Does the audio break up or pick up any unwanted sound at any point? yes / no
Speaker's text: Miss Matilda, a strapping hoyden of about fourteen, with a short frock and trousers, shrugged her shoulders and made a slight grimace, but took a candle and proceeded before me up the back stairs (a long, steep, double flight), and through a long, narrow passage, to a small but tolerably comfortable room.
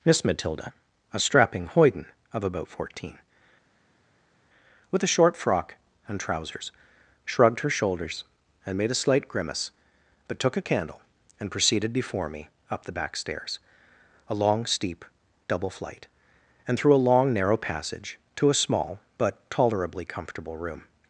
no